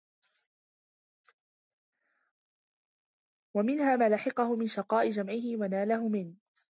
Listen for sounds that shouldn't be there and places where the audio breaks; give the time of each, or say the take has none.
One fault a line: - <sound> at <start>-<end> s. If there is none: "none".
none